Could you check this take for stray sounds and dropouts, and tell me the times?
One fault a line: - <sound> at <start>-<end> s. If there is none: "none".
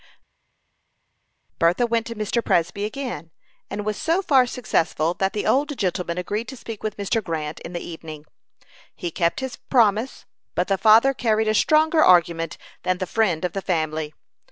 none